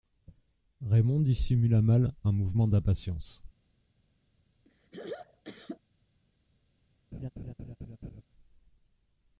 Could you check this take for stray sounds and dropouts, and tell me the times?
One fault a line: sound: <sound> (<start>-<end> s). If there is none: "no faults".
sound: throat clearing (4.7-5.8 s)
sound: laugh (7.1-8.2 s)